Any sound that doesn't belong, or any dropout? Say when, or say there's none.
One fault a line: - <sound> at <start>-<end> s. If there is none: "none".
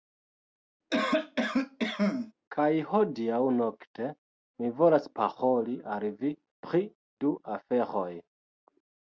- cough at 0.9-2.3 s